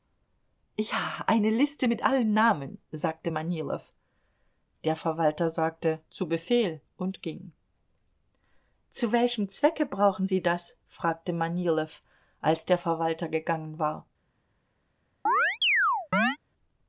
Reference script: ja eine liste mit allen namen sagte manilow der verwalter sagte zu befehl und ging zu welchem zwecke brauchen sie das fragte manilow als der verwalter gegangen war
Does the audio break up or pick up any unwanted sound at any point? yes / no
yes